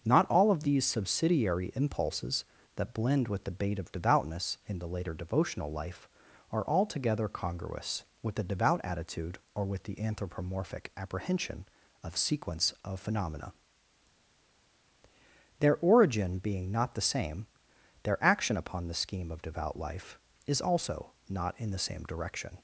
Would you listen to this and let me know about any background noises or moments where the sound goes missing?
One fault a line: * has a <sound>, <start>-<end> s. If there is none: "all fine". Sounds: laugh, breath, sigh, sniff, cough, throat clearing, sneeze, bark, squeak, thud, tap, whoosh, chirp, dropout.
all fine